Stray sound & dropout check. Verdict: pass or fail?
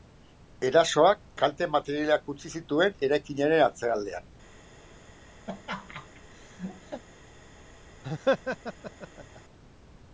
fail